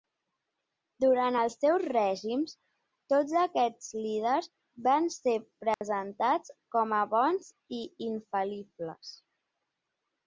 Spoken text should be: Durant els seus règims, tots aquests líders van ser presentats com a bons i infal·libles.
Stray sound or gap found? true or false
true